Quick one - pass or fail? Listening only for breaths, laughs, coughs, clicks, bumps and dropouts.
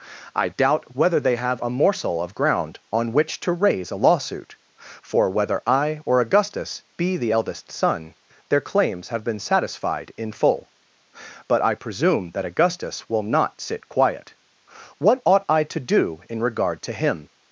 pass